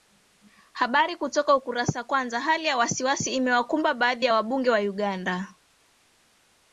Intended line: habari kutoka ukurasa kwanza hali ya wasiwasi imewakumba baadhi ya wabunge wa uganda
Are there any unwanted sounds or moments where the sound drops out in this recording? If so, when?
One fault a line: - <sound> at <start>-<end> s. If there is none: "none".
none